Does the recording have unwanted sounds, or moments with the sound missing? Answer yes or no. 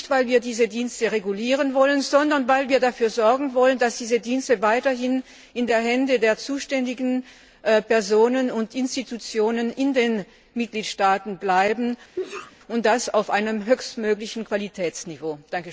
yes